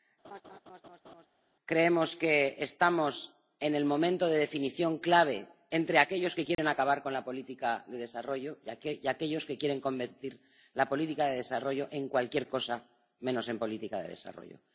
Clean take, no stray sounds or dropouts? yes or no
no